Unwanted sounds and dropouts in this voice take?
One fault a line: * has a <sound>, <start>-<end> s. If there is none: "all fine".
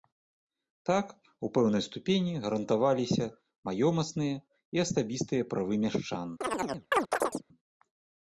* has a chirp, 6.4-7.4 s